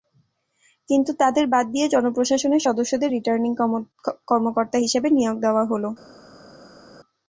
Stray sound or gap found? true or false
false